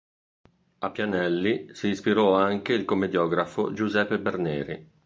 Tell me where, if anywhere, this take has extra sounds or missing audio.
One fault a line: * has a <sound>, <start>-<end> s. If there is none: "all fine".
all fine